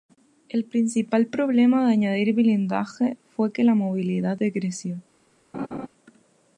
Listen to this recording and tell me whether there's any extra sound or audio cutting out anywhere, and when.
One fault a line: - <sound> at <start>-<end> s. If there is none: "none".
- laugh at 5.5-5.9 s